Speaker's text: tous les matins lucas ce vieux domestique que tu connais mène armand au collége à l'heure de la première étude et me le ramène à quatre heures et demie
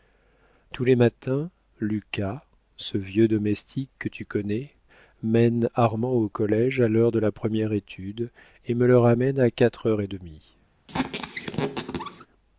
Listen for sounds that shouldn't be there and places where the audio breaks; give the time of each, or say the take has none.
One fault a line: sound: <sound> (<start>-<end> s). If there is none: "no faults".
sound: squeak (10.9-12.3 s)